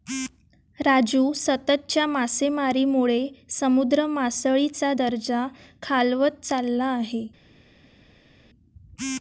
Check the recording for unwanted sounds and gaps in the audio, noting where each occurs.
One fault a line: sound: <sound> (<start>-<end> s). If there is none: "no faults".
no faults